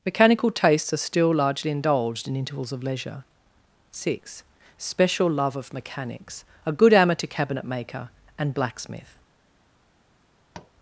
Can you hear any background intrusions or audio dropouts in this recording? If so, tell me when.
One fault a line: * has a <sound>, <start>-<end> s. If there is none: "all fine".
* has a tap, 10.5-10.7 s